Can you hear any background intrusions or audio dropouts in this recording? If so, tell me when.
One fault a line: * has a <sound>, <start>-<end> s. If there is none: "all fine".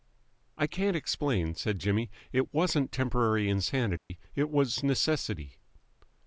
* has a dropout, 4.0-4.1 s